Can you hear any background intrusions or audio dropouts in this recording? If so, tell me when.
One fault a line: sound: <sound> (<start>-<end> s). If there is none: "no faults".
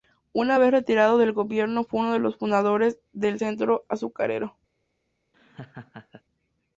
sound: laugh (5.3-6.2 s)